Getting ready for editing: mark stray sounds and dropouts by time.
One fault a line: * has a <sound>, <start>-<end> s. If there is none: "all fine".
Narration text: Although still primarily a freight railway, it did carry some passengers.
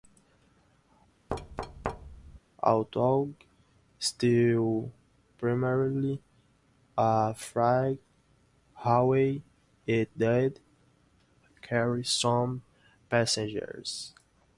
* has a thud, 1.3-2.4 s